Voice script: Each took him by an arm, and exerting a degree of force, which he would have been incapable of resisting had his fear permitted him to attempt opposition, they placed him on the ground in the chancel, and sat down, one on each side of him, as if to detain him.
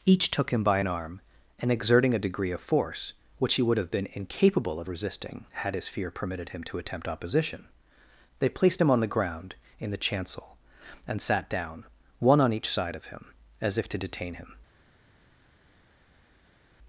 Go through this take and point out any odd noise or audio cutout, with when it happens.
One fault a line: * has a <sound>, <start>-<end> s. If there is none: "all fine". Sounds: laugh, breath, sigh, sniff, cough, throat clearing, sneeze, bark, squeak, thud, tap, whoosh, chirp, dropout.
all fine